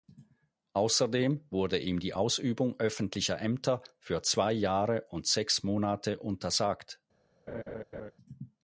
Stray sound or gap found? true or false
true